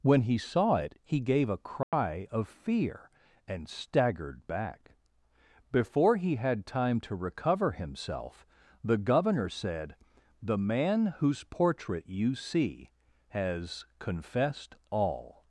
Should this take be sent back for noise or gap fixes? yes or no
yes